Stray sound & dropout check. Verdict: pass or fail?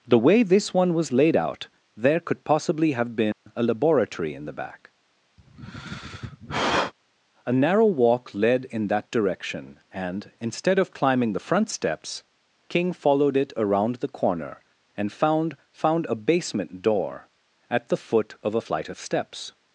fail